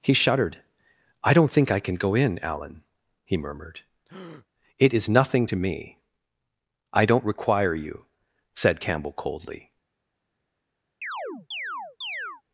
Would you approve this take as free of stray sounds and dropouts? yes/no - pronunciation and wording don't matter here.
no